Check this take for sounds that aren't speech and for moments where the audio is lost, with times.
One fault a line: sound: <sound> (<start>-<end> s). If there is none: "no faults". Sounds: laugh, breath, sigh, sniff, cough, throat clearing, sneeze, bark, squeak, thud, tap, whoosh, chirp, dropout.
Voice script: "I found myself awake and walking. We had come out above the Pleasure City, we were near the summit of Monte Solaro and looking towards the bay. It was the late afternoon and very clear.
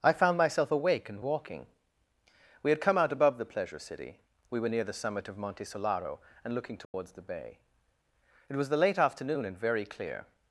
sound: dropout (6.8-6.9 s)